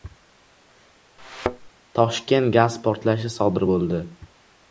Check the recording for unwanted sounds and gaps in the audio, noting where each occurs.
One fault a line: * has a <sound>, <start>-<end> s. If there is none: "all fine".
* has a thud, 1.2-1.7 s